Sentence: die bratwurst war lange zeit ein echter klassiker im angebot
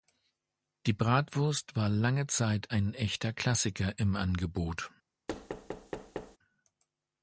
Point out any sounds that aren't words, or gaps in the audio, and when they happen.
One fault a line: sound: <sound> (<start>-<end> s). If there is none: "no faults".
sound: thud (5.3-6.4 s)